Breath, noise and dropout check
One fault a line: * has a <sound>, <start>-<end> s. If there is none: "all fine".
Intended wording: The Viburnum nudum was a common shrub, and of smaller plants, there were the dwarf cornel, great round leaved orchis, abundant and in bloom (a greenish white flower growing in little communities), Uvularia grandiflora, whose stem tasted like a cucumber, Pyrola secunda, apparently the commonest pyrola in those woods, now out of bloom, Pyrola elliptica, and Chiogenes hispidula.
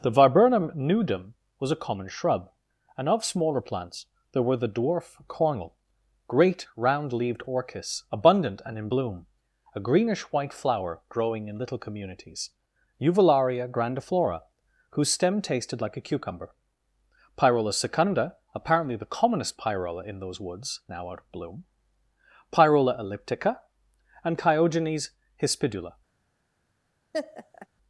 * has a laugh, 27.1-27.7 s